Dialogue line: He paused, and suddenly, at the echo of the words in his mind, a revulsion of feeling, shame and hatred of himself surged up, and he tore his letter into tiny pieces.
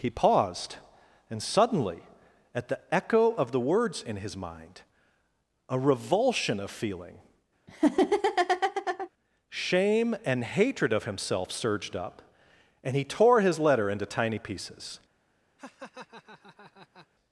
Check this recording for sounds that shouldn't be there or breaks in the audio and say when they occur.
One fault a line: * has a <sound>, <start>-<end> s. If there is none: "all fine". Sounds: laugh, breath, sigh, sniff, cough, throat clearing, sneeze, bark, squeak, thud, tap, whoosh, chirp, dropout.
* has a laugh, 7.7-9.1 s
* has a laugh, 15.6-17.1 s